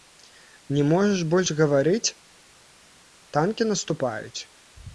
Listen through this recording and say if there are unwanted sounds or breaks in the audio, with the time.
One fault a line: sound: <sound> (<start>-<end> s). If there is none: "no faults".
no faults